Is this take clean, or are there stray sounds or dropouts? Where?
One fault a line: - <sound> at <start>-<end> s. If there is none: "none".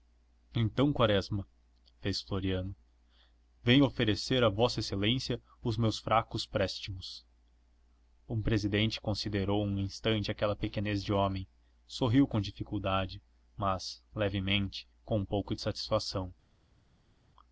none